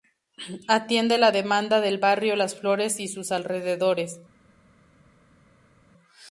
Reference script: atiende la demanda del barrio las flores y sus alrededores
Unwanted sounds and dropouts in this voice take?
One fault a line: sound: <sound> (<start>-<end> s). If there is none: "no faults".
no faults